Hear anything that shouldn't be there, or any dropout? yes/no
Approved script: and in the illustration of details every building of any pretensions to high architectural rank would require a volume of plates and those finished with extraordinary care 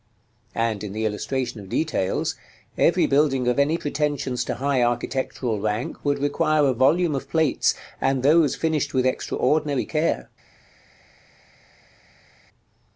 no